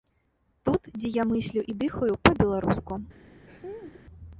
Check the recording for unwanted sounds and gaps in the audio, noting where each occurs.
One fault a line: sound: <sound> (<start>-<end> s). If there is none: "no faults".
sound: laugh (3.5-4.0 s)